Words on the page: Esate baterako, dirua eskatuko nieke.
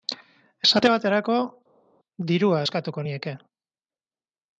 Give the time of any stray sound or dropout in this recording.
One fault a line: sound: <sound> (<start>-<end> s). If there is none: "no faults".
no faults